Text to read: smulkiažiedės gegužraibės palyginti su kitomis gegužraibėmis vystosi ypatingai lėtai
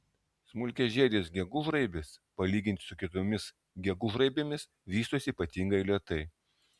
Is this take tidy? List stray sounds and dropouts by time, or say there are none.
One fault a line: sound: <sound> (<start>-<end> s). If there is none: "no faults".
no faults